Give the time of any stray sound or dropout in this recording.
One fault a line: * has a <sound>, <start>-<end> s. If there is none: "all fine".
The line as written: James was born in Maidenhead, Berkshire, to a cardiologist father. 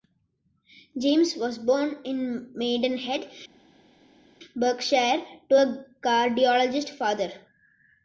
all fine